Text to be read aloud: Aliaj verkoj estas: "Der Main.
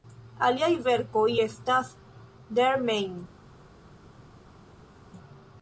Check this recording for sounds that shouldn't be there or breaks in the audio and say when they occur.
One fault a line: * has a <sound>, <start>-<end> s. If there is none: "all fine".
all fine